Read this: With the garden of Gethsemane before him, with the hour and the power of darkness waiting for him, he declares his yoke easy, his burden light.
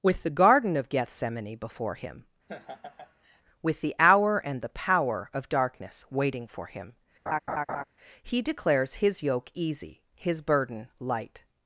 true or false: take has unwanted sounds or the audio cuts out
true